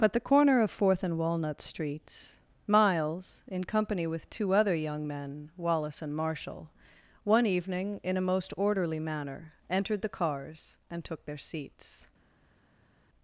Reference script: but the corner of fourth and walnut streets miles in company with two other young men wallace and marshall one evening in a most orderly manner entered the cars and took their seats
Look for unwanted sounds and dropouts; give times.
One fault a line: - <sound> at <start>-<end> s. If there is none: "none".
none